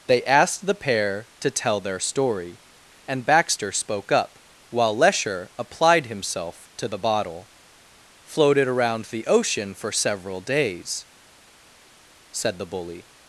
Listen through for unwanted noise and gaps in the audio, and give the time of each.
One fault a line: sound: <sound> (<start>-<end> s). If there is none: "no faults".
no faults